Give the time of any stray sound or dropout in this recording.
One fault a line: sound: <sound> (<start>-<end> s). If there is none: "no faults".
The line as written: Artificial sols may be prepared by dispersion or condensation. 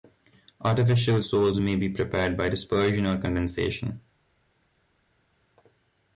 no faults